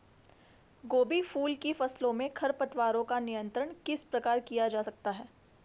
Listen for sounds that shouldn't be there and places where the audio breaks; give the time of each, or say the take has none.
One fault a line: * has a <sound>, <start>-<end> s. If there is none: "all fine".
all fine